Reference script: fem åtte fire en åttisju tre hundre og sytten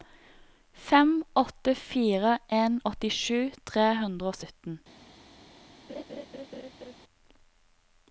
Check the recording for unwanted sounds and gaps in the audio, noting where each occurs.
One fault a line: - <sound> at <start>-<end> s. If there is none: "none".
- laugh at 5.9-7.0 s